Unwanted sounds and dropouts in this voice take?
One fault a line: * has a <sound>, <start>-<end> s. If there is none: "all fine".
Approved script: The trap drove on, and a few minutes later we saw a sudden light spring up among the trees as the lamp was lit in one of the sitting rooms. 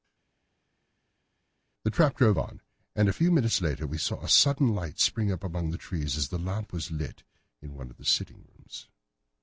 all fine